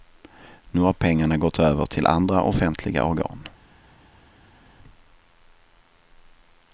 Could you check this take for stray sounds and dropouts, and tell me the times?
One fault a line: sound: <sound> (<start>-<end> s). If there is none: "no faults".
no faults